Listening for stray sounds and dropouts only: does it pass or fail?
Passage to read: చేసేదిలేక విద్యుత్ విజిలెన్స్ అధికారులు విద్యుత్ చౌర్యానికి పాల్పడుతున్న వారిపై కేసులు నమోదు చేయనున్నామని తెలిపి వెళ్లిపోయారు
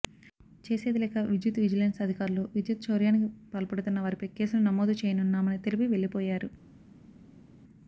pass